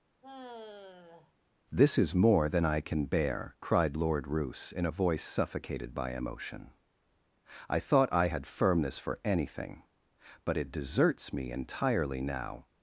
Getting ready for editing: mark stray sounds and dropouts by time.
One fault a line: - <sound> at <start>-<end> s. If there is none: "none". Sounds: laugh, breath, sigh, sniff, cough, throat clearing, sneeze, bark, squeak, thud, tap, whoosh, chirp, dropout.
- sigh at 0.2-1.3 s